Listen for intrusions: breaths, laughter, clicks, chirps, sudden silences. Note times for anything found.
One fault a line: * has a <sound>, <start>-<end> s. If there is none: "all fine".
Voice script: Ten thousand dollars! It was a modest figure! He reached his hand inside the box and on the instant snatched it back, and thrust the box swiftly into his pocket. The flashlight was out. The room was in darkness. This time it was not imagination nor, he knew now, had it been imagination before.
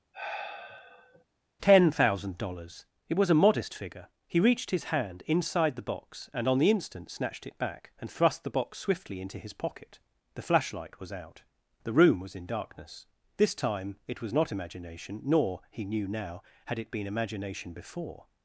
* has a sigh, 0.1-1.2 s